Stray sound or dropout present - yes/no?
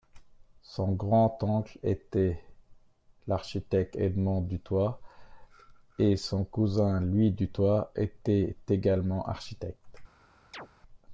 yes